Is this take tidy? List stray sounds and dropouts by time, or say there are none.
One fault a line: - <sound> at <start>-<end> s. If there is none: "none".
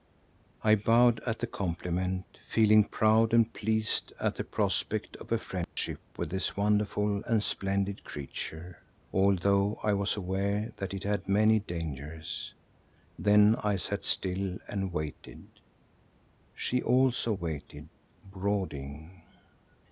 - dropout at 5.6-5.8 s